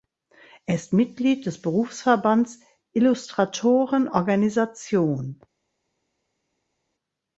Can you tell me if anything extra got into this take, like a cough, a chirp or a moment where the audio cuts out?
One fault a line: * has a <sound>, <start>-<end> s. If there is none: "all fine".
all fine